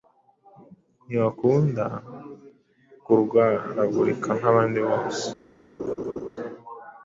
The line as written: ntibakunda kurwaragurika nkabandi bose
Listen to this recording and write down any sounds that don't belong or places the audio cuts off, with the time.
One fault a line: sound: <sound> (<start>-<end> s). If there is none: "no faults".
sound: laugh (5.8-6.3 s)